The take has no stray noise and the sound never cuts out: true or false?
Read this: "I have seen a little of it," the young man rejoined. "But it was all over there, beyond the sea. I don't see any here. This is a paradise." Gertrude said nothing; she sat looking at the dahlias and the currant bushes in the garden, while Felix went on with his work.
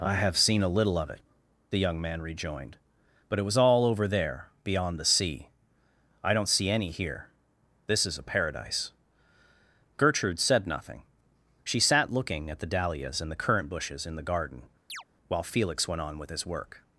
false